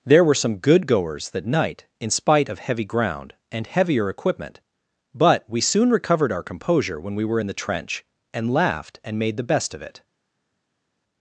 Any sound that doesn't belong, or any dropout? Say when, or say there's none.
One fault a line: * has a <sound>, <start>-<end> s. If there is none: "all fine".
all fine